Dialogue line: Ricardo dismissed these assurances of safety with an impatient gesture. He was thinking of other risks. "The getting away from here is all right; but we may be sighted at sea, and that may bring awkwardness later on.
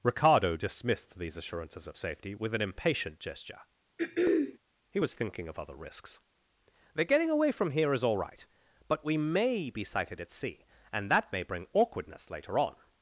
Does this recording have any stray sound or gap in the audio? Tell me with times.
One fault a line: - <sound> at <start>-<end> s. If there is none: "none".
- throat clearing at 4.0-4.6 s